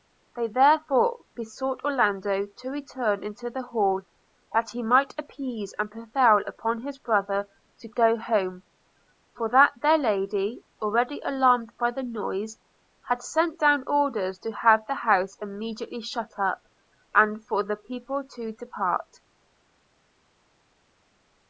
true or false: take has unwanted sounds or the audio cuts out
false